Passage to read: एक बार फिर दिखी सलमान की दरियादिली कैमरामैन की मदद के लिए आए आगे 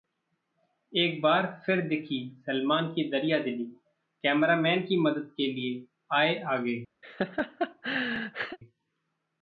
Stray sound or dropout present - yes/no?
yes